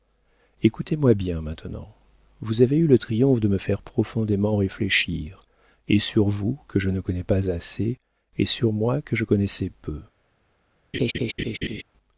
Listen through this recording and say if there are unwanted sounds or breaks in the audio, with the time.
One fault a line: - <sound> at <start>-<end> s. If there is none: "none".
- laugh at 10.9-11.8 s